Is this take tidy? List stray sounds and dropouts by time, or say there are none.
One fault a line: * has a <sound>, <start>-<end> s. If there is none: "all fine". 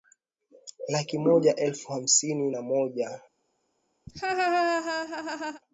* has a laugh, 4.1-5.6 s